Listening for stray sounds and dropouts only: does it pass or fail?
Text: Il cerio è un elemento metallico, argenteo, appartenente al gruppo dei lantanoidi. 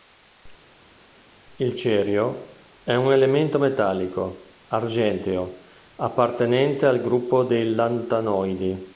pass